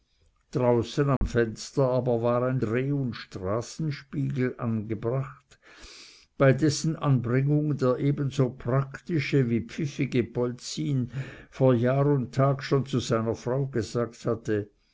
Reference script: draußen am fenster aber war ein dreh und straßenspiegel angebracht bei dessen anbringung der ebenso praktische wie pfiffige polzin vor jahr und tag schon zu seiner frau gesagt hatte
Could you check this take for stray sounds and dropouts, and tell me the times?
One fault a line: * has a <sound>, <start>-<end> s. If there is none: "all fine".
* has a dropout, 1.2-1.2 s